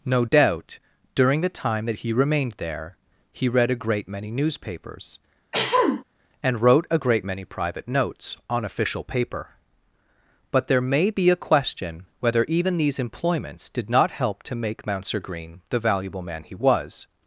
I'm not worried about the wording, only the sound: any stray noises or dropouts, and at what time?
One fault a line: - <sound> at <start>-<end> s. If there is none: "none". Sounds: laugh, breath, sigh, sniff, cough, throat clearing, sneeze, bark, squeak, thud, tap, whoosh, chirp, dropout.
- throat clearing at 5.5-6.0 s